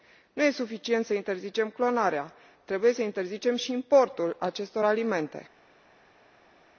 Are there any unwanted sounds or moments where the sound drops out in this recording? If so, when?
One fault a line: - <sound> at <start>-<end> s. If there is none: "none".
none